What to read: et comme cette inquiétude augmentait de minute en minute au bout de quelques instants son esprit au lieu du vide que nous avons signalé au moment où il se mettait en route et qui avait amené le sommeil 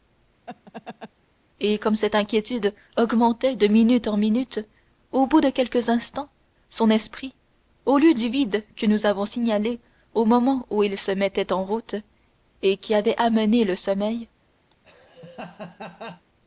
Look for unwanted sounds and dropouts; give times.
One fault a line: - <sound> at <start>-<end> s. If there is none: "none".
- laugh at 0.5-1.1 s
- laugh at 14.7-16.2 s